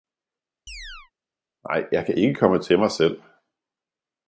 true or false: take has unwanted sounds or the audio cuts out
true